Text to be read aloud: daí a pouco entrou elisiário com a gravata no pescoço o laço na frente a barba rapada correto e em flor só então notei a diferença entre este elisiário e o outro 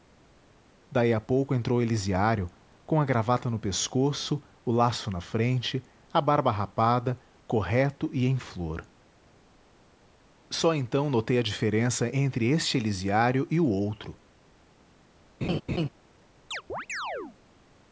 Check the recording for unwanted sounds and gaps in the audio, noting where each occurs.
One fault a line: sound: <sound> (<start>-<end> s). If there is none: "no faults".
sound: laugh (15.4-15.9 s)
sound: chirp (16.5-17.4 s)